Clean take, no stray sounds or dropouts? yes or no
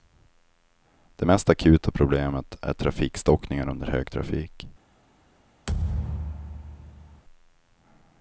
no